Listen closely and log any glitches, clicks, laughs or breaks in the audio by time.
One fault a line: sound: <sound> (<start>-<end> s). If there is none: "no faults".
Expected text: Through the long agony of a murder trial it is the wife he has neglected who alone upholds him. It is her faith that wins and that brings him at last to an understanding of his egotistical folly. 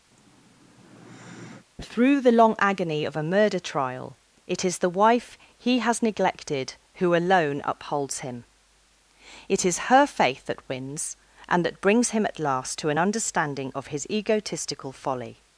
sound: sigh (0.1-1.7 s)